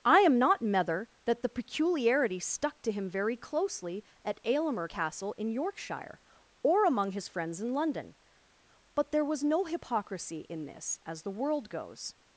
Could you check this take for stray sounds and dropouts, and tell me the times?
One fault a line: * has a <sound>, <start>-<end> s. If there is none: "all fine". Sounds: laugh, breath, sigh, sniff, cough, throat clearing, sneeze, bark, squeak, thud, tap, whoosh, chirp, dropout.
all fine